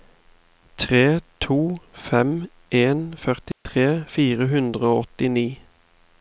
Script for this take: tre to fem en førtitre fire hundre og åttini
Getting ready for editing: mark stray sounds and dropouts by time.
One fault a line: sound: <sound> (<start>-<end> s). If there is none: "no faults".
sound: dropout (3.5-3.7 s)